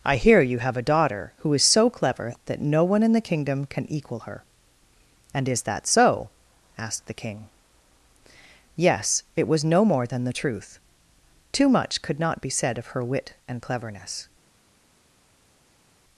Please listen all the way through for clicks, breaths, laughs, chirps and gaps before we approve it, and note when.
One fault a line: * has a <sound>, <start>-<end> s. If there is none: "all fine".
all fine